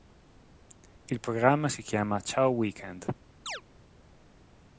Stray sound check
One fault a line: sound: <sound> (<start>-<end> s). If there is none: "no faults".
sound: chirp (3.5-3.6 s)